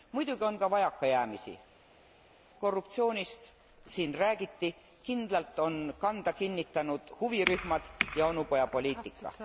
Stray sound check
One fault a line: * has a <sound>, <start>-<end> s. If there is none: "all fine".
all fine